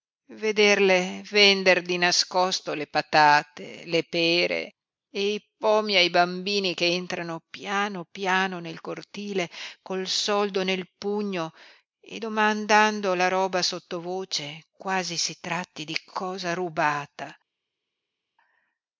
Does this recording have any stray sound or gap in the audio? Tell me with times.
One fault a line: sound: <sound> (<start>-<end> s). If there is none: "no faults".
no faults